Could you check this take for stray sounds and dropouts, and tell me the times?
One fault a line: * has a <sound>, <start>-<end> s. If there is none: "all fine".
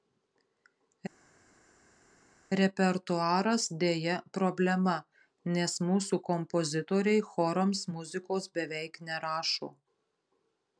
all fine